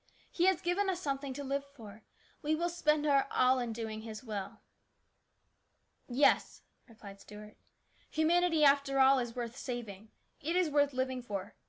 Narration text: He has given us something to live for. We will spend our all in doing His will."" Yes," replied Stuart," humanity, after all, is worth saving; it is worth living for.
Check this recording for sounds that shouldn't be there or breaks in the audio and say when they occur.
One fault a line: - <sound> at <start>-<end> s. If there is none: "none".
none